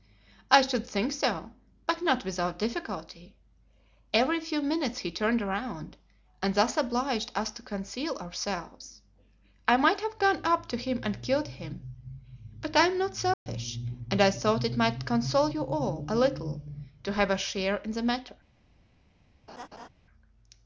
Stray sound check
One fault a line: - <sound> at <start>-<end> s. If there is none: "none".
- dropout at 13.3-13.5 s
- laugh at 19.5-19.9 s